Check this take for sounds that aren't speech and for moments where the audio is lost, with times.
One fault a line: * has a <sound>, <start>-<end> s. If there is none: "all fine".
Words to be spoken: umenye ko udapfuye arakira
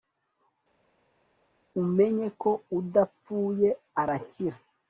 all fine